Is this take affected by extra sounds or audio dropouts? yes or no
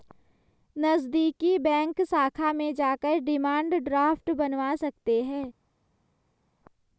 no